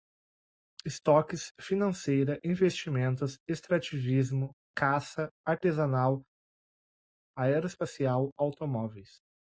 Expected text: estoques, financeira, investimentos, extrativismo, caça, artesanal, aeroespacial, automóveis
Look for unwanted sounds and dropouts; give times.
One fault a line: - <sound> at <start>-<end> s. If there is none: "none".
none